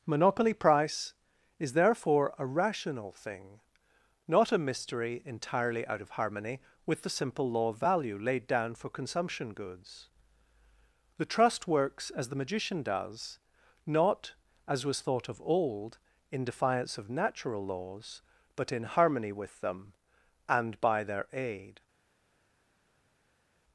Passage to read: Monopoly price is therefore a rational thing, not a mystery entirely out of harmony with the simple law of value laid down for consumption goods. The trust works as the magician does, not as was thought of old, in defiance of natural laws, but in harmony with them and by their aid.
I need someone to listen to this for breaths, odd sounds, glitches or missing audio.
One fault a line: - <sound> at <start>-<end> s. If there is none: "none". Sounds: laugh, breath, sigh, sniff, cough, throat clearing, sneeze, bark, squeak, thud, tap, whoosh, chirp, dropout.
none